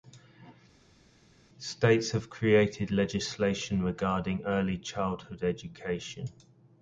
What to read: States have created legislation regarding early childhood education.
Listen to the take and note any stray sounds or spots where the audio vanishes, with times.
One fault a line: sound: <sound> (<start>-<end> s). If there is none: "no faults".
no faults